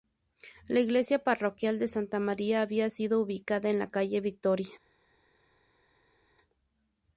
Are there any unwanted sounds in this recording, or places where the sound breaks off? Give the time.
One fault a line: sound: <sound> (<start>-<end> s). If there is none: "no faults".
no faults